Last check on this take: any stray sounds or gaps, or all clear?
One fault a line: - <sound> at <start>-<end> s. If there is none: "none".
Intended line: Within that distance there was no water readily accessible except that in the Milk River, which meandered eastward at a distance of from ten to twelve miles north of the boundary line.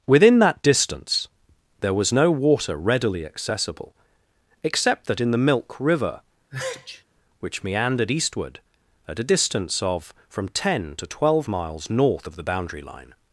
- sneeze at 6.5-7.0 s